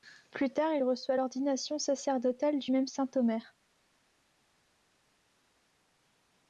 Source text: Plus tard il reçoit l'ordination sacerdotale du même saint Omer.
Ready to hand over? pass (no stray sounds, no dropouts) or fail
pass